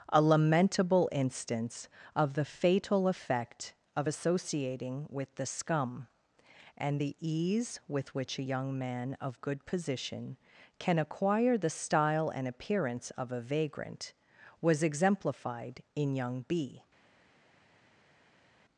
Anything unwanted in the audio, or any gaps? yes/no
no